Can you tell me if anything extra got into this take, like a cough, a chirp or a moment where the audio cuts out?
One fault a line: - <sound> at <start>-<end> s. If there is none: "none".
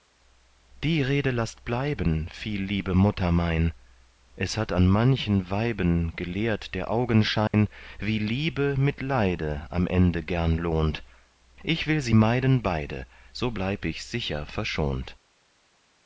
- dropout at 7.5-7.5 s